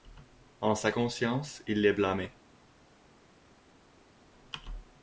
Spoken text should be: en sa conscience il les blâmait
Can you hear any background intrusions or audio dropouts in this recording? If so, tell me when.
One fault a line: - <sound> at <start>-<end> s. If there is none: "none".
none